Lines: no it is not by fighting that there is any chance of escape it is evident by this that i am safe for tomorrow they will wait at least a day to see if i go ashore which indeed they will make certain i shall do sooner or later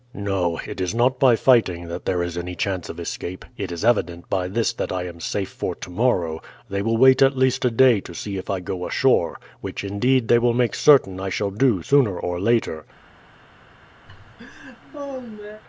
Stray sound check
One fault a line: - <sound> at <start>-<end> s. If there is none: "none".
- laugh at 14.1-15.6 s